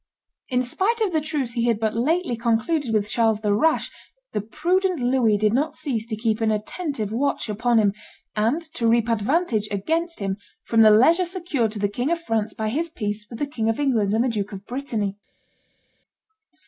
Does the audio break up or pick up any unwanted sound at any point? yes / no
no